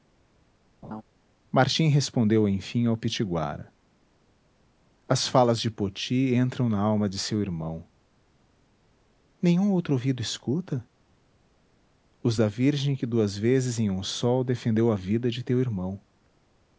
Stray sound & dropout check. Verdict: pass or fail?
fail